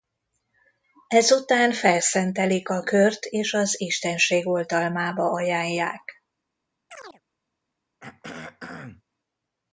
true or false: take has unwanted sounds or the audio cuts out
true